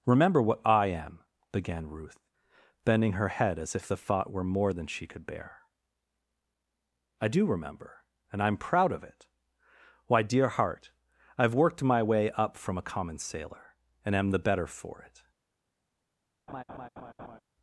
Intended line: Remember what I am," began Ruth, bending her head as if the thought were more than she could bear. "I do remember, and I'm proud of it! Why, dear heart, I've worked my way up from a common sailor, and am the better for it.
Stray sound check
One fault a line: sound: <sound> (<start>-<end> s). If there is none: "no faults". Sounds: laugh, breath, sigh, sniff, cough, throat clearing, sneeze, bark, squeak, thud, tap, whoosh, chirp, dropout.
sound: laugh (16.5-17.4 s)